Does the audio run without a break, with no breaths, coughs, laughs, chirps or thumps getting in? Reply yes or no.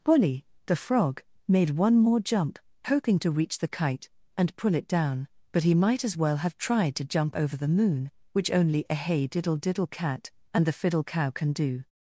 yes